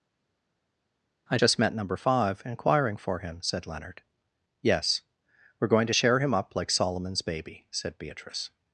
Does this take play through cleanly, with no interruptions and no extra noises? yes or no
yes